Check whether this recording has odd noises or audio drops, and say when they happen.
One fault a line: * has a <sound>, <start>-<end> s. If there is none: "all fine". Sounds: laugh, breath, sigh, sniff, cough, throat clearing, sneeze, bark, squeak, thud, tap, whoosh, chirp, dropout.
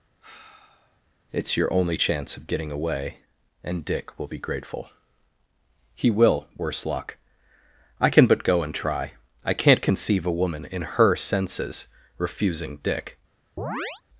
* has a sigh, 0.2-1.0 s
* has a chirp, 13.6-14.0 s